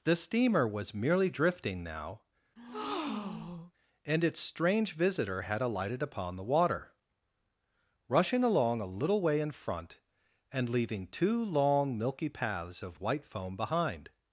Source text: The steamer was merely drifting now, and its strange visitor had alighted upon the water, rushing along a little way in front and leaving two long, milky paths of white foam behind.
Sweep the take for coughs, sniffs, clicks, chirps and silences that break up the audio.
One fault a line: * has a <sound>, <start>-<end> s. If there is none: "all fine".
* has a breath, 2.6-3.7 s